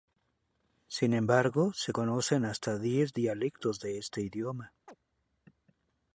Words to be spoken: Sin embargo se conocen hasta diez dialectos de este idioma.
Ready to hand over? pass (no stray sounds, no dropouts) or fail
fail